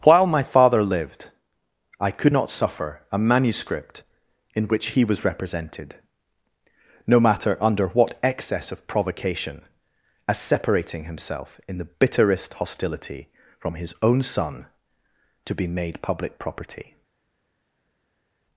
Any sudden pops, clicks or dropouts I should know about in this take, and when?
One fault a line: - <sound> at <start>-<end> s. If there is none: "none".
none